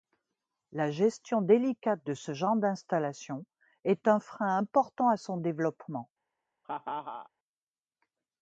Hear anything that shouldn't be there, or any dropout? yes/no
yes